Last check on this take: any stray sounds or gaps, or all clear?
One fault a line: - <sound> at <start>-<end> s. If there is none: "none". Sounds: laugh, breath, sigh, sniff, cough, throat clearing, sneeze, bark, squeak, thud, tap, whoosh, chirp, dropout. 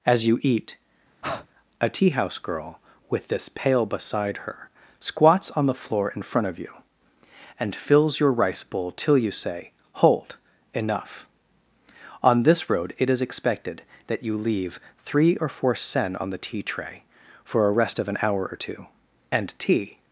- breath at 1.2-1.5 s